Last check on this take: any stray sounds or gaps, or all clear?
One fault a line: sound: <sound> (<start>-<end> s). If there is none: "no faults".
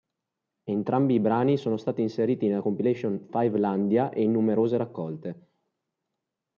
no faults